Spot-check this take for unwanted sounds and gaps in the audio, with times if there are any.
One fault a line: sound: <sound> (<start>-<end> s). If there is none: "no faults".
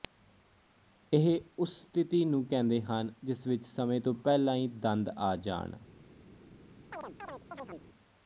sound: chirp (6.9-7.9 s)